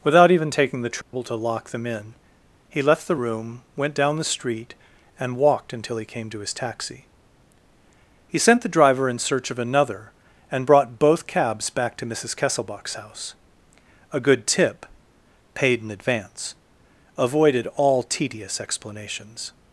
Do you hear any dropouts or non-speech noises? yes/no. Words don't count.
yes